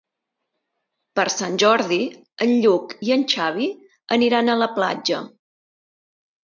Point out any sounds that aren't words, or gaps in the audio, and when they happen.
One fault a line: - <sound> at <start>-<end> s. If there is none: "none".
none